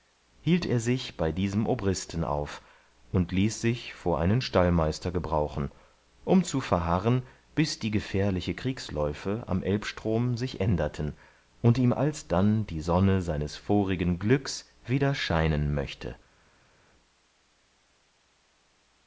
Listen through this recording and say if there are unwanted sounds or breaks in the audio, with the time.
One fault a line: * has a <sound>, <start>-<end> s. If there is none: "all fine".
all fine